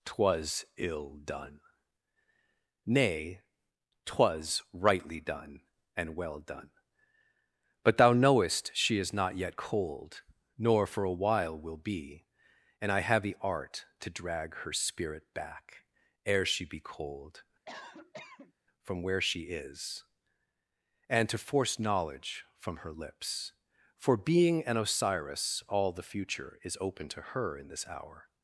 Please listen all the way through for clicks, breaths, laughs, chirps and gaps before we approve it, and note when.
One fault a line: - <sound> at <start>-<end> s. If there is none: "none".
- cough at 17.7-18.5 s